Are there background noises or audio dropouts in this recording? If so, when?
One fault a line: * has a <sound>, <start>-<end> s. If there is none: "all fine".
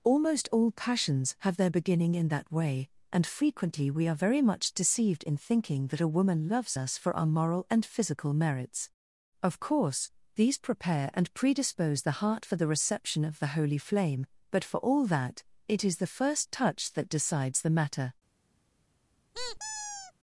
* has a squeak, 19.3-20.1 s